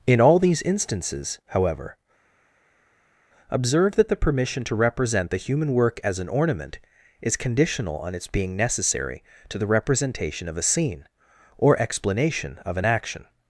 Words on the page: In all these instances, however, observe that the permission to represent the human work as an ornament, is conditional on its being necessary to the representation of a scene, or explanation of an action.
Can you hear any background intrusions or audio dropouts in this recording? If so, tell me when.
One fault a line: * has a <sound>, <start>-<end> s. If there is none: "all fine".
all fine